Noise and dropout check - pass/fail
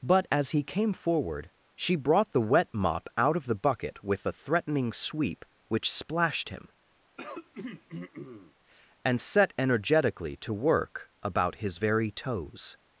fail